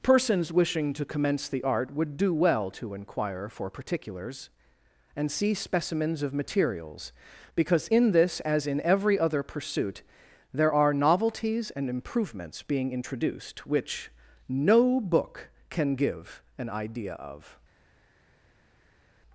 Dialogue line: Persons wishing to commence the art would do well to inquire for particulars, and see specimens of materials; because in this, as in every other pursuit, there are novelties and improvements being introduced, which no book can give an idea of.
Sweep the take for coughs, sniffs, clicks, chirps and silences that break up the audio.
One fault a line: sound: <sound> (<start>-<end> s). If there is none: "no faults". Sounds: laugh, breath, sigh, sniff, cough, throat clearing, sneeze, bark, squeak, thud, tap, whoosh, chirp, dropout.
no faults